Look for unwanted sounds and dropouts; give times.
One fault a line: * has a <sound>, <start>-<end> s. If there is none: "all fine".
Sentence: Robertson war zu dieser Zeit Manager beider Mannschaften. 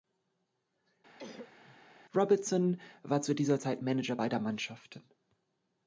* has a cough, 1.2-1.8 s